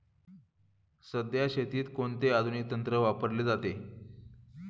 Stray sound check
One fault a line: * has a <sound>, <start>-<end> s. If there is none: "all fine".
all fine